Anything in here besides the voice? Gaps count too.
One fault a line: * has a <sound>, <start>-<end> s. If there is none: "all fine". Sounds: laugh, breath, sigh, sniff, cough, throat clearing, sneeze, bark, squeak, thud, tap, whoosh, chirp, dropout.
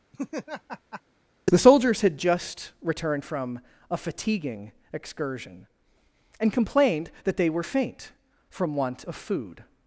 * has a laugh, 0.1-1.0 s